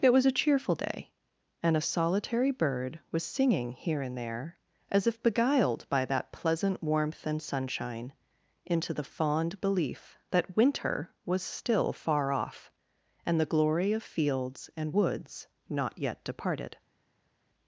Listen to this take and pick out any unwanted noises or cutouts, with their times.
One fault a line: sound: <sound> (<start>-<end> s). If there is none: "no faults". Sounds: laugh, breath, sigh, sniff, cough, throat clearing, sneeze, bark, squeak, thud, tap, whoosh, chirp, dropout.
no faults